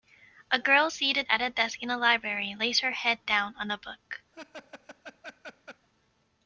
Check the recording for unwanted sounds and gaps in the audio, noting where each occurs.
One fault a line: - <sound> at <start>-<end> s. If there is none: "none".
- laugh at 4.3-5.9 s